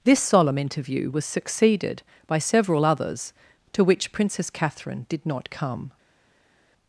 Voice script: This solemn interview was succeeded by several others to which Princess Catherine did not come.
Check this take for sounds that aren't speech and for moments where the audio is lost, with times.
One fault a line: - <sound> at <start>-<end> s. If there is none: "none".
none